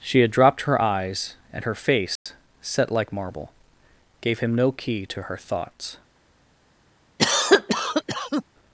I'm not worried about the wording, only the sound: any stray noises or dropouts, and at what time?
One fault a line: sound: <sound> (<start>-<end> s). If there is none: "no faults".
sound: dropout (2.2-2.3 s)
sound: cough (7.2-8.4 s)